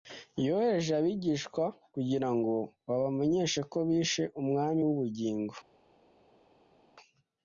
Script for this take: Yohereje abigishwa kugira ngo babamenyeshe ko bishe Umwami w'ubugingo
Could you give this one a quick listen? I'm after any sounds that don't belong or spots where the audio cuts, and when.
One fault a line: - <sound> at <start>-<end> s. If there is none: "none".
none